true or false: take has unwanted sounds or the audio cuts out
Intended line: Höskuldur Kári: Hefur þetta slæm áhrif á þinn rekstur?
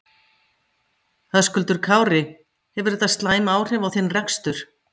false